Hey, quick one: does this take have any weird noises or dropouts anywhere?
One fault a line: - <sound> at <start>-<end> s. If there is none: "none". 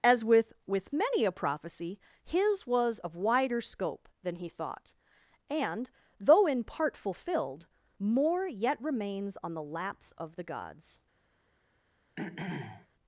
- throat clearing at 12.2-12.9 s